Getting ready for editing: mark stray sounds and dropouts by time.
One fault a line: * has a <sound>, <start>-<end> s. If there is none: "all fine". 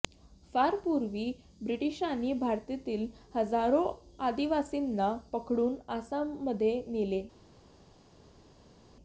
all fine